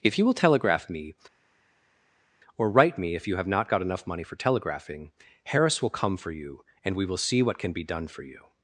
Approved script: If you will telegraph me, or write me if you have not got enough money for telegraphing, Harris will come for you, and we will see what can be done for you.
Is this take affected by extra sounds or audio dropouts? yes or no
no